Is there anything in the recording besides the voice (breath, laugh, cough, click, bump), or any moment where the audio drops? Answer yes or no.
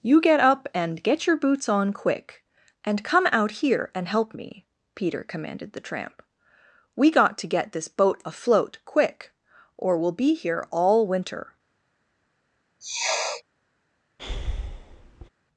yes